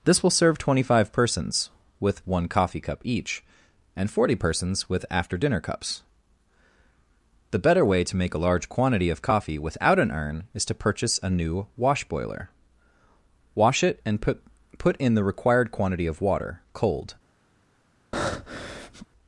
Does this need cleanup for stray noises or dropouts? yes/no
yes